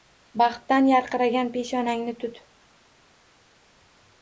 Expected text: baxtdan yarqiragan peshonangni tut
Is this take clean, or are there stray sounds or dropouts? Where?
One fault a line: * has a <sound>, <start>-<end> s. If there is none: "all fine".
all fine